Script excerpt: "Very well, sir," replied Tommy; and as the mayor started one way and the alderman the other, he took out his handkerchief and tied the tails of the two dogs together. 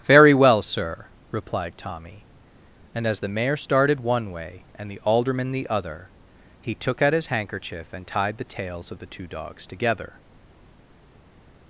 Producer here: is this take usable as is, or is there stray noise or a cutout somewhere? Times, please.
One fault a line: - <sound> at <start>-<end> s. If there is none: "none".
none